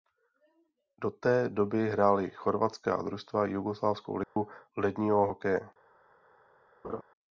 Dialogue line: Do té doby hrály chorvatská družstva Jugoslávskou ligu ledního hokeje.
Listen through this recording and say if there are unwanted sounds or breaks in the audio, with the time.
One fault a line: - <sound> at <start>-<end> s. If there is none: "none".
- dropout at 4.2-4.4 s
- laugh at 6.8-7.0 s